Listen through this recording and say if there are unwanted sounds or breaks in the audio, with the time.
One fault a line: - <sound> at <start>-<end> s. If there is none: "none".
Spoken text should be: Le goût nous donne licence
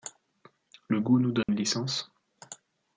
- dropout at 1.4-1.5 s